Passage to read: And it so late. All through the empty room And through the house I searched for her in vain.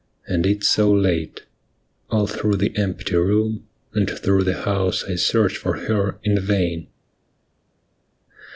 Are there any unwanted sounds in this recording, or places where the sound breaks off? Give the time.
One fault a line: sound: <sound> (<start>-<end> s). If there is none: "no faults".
no faults